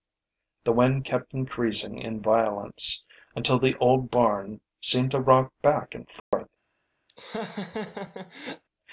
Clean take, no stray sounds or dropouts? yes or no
no